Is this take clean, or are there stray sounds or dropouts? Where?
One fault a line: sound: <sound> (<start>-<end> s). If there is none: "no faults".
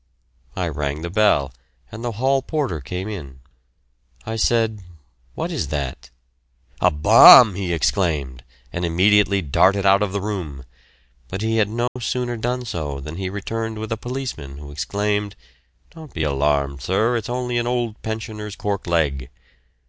sound: dropout (11.9-12.0 s)